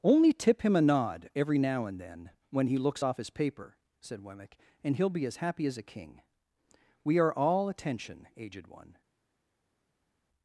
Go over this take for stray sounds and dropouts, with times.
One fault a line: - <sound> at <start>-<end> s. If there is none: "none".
none